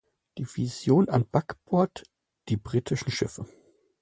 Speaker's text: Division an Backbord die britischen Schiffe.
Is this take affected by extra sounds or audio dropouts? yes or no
no